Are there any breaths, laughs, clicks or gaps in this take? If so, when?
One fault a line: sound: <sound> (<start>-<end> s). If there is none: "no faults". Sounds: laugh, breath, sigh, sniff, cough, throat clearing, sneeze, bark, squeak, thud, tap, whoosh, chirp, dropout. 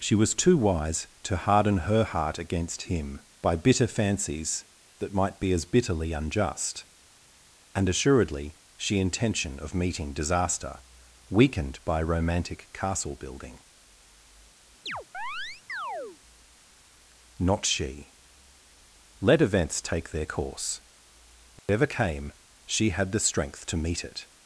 sound: chirp (14.9-16.2 s)
sound: dropout (21.6-21.7 s)